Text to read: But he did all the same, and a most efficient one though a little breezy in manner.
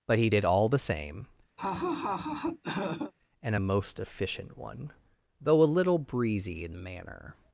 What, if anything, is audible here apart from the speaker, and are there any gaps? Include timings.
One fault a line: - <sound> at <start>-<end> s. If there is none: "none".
- laugh at 1.6-3.1 s